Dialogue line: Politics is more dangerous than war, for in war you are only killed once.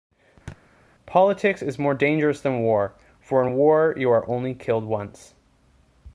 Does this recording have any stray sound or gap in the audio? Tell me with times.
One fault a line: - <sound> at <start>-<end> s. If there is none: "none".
- thud at 0.5-0.6 s